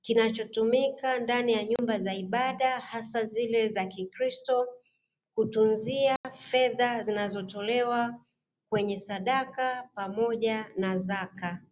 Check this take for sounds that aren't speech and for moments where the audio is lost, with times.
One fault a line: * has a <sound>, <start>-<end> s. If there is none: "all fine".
* has a dropout, 1.8-1.8 s
* has a dropout, 6.2-6.2 s